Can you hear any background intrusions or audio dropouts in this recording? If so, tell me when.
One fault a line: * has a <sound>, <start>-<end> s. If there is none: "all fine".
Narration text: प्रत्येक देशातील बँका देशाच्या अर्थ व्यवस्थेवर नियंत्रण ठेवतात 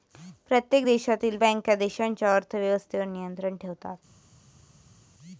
all fine